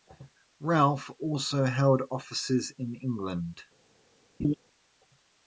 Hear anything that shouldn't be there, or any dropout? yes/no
yes